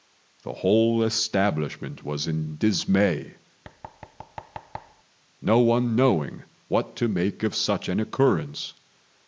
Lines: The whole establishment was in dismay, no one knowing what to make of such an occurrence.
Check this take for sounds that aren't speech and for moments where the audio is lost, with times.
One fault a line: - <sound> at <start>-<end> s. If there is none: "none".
- thud at 3.6-5.0 s